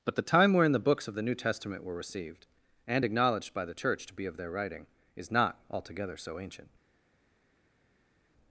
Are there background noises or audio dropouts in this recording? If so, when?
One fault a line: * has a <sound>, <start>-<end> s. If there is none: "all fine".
all fine